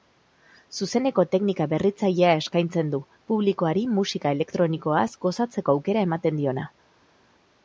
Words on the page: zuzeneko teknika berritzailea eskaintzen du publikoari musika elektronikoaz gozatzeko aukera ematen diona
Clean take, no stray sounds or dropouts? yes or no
yes